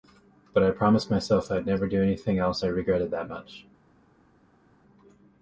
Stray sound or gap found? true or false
false